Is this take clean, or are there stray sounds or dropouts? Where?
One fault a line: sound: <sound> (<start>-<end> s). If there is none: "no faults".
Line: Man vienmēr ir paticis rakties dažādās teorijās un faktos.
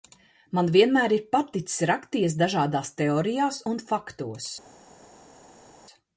no faults